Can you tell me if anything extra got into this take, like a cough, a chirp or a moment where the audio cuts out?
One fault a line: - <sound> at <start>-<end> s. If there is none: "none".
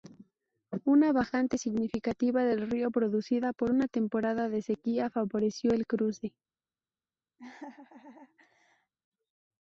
- laugh at 7.4-8.9 s